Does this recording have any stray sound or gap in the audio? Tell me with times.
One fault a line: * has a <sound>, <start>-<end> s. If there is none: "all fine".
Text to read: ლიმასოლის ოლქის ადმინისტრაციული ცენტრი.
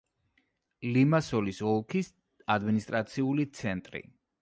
all fine